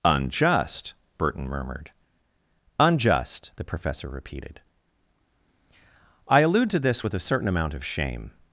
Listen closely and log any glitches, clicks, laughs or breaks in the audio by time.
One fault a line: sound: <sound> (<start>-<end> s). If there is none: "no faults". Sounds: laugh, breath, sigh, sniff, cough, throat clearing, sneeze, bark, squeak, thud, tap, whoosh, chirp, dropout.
no faults